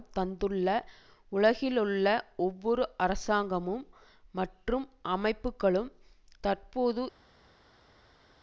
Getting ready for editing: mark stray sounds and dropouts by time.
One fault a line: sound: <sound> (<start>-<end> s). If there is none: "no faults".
no faults